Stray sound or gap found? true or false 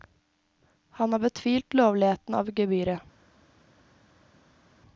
false